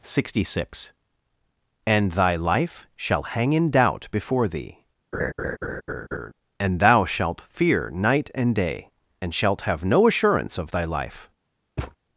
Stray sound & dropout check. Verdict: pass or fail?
fail